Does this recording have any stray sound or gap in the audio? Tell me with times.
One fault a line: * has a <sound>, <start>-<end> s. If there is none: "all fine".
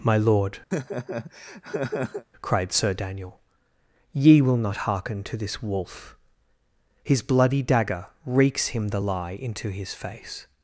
* has a laugh, 0.7-2.2 s